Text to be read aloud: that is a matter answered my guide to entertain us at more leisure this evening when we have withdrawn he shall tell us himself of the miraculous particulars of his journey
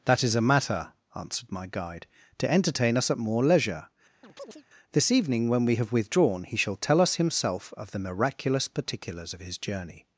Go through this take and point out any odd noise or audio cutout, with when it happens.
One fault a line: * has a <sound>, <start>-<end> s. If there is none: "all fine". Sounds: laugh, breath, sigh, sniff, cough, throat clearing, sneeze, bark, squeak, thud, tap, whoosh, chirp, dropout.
* has a chirp, 4.2-4.6 s